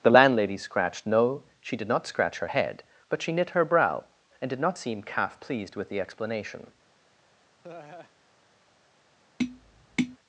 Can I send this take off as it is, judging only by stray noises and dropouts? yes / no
no